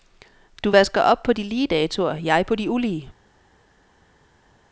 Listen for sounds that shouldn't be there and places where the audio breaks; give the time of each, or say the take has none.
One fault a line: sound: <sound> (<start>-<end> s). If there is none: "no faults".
no faults